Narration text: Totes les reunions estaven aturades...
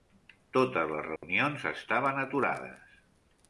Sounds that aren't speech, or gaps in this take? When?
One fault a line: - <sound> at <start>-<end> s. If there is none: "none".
- dropout at 1.2-1.2 s